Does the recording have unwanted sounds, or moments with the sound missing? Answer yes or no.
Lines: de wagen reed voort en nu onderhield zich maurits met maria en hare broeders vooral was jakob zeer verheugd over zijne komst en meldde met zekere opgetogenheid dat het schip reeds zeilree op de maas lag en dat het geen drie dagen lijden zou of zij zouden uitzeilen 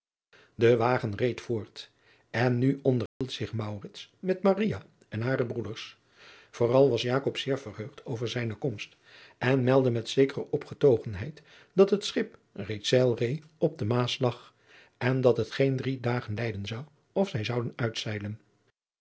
yes